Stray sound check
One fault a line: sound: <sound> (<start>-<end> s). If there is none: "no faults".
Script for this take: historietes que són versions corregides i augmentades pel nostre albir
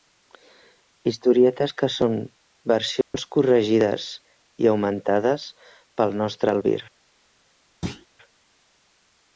sound: dropout (3.0-3.1 s)
sound: thud (7.8-8.1 s)